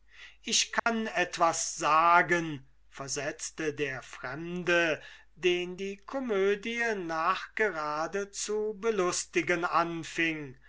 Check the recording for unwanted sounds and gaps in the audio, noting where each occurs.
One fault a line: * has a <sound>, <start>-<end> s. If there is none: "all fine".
* has a dropout, 0.8-0.9 s